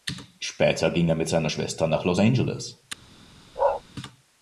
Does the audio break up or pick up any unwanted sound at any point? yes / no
yes